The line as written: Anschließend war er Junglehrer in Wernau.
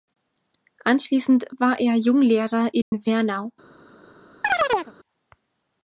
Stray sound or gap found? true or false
true